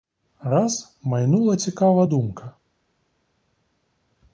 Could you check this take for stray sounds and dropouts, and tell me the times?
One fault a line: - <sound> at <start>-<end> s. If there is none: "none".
none